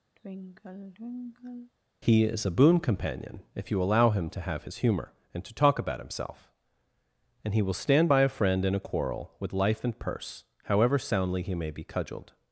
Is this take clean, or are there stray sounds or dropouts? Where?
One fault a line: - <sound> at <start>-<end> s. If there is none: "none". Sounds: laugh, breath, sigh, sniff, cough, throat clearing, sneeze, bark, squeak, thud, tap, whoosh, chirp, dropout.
- sigh at 0.2-1.7 s